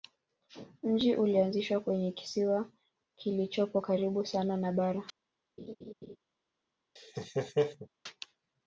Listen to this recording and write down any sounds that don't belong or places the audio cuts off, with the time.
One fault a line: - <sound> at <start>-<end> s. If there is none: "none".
- laugh at 5.6-6.2 s
- laugh at 7.0-7.9 s